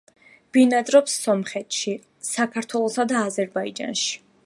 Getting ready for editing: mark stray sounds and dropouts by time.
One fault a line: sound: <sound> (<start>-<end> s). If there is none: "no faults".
no faults